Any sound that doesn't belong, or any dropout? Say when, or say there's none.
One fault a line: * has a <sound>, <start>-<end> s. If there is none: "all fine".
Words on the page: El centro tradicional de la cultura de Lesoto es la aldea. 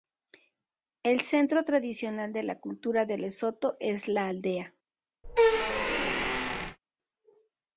* has a squeak, 5.2-6.8 s